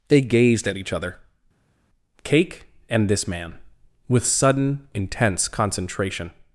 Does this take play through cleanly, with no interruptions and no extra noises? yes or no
yes